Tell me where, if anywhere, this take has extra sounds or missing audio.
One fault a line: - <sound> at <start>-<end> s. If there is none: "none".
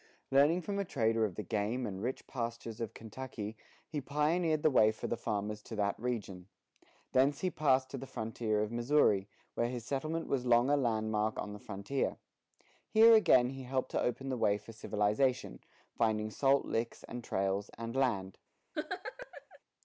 - laugh at 18.7-19.6 s